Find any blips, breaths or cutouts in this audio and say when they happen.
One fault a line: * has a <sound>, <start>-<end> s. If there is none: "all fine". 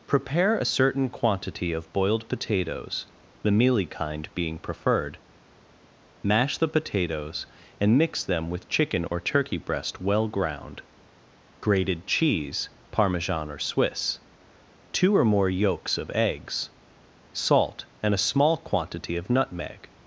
* has a dropout, 9.1-9.1 s